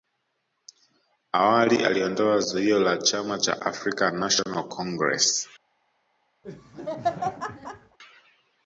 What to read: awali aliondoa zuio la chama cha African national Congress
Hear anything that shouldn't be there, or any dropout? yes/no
yes